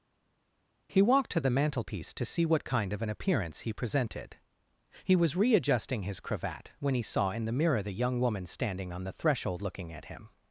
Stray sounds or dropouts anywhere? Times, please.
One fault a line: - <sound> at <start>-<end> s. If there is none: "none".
none